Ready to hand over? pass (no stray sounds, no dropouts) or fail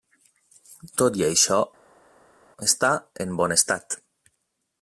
pass